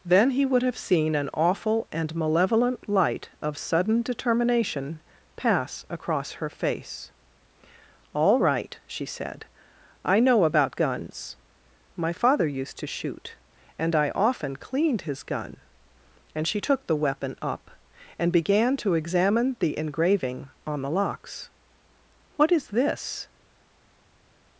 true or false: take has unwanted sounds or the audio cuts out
false